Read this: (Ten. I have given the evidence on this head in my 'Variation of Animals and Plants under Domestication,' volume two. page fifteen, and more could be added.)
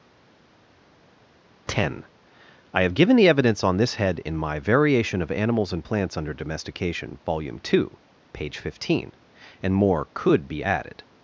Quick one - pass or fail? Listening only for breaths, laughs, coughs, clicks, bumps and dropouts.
pass